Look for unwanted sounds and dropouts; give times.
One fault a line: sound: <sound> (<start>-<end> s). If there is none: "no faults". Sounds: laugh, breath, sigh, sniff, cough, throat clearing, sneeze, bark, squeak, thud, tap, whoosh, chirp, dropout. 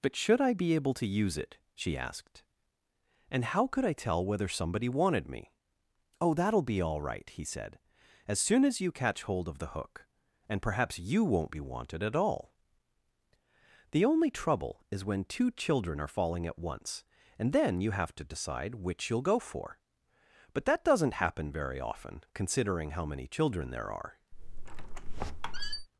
sound: squeak (24.3-25.9 s)